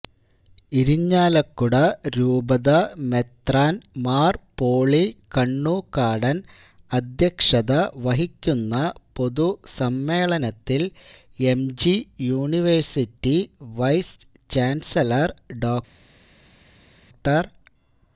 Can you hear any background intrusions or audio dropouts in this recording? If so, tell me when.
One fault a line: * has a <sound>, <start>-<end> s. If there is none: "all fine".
all fine